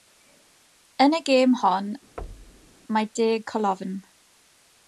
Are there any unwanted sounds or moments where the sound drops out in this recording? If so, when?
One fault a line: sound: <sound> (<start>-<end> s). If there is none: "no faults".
sound: thud (2.2-2.7 s)